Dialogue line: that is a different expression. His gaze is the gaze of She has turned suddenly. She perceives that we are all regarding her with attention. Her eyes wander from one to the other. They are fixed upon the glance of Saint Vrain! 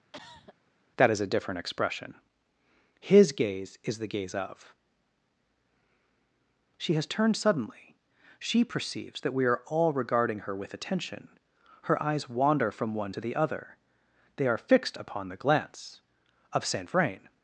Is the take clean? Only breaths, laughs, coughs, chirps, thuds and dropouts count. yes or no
no